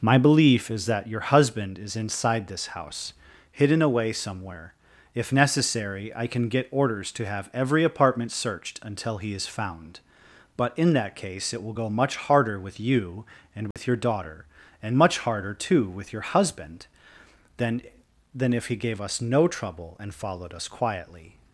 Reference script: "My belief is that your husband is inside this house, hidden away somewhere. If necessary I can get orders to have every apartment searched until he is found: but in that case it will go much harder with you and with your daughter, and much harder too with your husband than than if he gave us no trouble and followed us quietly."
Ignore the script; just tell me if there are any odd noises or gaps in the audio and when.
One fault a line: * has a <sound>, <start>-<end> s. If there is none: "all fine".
* has a dropout, 13.7-13.8 s